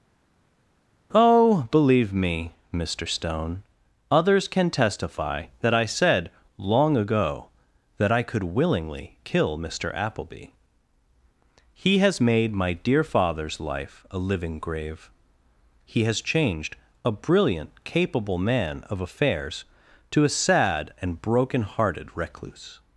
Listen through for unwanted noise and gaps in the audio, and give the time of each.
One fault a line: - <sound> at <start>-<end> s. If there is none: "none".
none